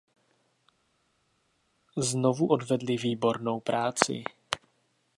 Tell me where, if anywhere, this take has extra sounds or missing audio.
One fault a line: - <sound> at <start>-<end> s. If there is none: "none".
none